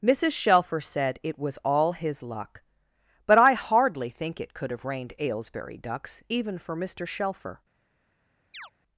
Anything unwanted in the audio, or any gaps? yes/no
yes